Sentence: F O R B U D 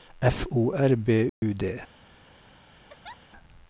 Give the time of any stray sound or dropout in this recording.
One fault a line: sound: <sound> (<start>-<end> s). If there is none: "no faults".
sound: dropout (1.3-1.4 s)
sound: laugh (2.9-3.2 s)